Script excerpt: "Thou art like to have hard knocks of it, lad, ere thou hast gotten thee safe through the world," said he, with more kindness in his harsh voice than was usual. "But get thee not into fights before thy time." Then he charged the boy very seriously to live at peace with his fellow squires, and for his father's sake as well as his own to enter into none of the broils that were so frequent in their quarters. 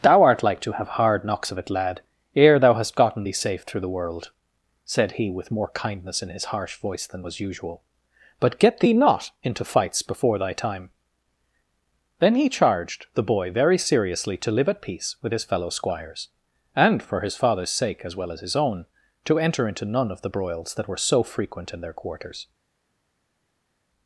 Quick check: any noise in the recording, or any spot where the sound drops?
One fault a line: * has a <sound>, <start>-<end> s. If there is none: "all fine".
all fine